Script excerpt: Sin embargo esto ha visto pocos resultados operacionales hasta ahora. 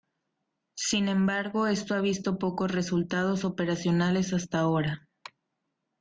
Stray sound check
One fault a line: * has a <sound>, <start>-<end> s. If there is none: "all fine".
all fine